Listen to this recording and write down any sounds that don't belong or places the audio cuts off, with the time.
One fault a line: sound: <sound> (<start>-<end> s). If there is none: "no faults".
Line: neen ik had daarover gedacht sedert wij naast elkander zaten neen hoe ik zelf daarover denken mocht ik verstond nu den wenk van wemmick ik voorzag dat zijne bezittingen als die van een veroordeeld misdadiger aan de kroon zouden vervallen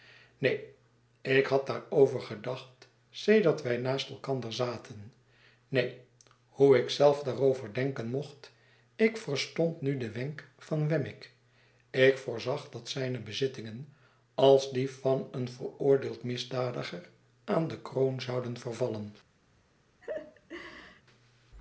sound: laugh (20.0-21.0 s)